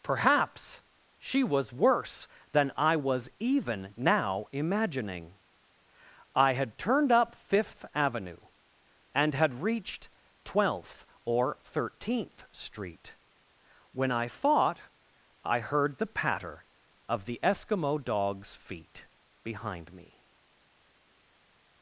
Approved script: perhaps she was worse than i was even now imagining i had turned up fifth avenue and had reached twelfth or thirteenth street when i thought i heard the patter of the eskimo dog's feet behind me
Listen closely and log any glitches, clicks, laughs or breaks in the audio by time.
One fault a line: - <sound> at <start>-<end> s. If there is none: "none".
none